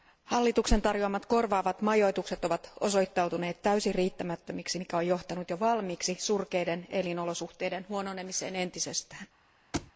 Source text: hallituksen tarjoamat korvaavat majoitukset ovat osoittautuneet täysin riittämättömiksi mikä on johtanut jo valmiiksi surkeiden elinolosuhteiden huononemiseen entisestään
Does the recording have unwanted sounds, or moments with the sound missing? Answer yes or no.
yes